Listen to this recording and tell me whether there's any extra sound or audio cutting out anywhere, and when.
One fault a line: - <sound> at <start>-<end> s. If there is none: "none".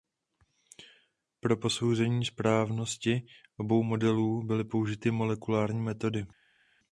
none